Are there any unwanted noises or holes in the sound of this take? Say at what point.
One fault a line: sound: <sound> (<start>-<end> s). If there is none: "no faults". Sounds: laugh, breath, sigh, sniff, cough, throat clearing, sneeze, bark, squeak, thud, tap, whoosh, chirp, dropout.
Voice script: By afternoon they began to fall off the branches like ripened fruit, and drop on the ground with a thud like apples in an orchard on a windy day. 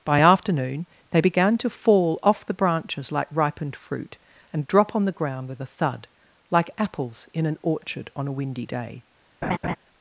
sound: laugh (9.4-9.8 s)